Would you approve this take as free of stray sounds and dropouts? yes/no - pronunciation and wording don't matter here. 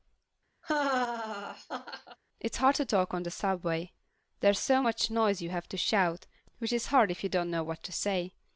no